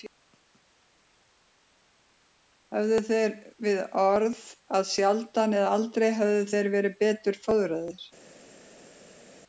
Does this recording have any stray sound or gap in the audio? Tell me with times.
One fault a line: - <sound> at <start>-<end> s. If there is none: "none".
none